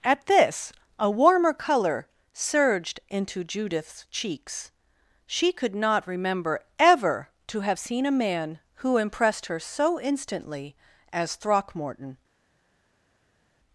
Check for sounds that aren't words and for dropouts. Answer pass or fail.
pass